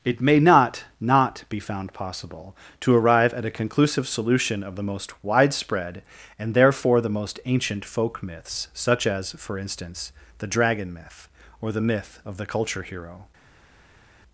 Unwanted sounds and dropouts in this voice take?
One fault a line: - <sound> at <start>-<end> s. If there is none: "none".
none